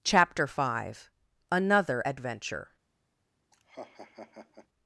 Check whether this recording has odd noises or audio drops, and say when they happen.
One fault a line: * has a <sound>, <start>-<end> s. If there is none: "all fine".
* has a laugh, 3.5-4.7 s